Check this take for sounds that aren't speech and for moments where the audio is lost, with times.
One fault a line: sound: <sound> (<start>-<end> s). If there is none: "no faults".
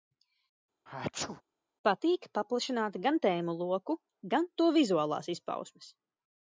sound: sneeze (0.9-1.4 s)